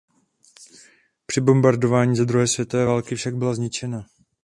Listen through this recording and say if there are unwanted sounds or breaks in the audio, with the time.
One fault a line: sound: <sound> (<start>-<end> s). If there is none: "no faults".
no faults